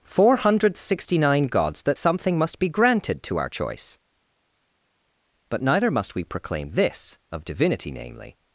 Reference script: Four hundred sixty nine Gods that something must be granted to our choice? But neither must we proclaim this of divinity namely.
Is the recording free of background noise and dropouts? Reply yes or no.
yes